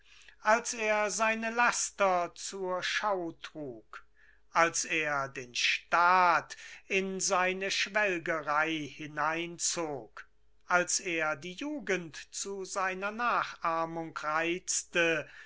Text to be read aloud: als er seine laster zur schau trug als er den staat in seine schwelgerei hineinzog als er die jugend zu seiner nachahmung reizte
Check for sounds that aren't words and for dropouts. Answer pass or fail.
pass